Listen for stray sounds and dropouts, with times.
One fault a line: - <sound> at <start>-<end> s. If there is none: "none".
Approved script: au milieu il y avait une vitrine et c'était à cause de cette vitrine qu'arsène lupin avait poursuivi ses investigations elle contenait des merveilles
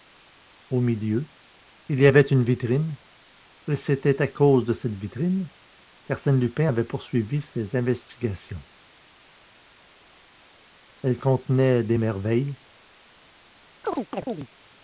- chirp at 13.8-14.5 s